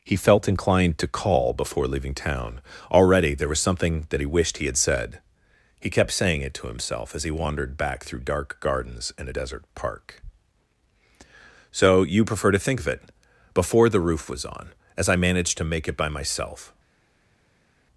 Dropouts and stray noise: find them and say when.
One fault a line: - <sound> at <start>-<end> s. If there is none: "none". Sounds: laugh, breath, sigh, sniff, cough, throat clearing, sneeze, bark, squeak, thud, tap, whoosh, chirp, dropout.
none